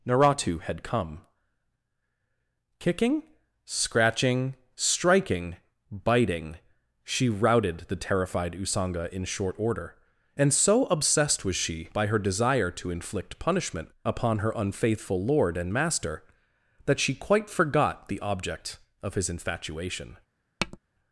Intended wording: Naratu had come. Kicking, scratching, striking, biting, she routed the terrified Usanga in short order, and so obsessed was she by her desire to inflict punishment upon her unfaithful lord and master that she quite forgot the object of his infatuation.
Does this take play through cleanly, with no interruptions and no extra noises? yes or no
no